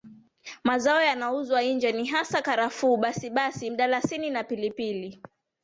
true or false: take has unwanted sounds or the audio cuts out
false